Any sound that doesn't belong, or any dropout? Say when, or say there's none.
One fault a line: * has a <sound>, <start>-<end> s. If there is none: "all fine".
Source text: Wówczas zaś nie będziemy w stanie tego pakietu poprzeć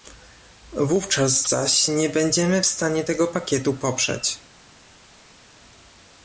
all fine